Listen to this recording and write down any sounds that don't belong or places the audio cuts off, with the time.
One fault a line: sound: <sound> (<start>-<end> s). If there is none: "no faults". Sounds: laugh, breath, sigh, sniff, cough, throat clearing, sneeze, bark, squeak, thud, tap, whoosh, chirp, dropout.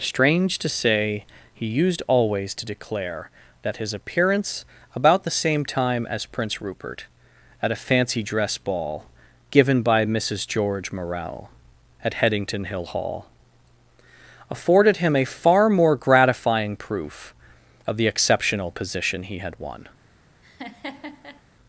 sound: laugh (20.4-21.4 s)